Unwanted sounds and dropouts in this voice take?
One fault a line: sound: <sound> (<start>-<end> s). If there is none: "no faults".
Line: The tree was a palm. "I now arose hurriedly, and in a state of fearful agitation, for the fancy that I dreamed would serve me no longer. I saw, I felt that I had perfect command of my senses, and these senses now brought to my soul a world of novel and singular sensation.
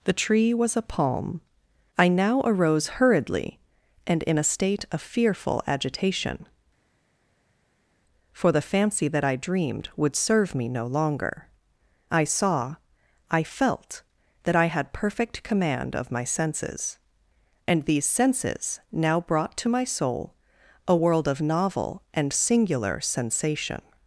no faults